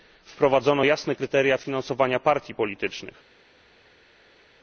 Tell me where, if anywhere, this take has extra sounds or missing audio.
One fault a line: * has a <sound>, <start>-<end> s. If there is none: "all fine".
all fine